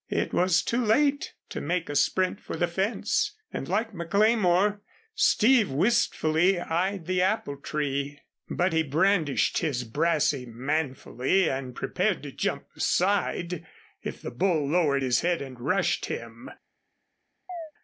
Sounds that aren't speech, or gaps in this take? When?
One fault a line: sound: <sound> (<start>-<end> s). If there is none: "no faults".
sound: chirp (17.5-17.7 s)